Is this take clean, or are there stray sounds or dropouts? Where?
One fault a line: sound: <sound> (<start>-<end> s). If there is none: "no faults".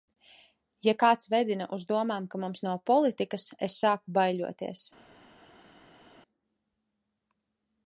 no faults